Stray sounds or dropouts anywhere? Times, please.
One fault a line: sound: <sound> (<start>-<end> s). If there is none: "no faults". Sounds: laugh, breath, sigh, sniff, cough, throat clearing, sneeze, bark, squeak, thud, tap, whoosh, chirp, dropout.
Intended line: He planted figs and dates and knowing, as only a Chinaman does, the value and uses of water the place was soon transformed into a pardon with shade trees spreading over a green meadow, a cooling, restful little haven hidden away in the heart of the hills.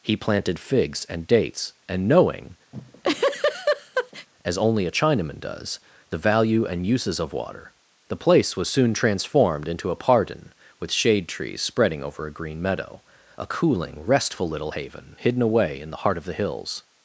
sound: laugh (2.7-4.3 s)